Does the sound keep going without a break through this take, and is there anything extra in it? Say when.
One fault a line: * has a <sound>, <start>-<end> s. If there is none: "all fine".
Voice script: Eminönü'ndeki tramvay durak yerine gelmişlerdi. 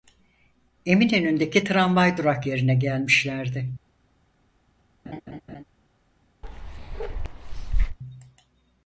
* has a laugh, 5.0-5.6 s
* has a bark, 6.4-8.0 s